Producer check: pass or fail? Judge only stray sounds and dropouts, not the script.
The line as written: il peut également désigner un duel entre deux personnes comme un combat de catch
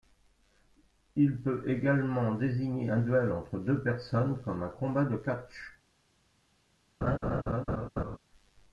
fail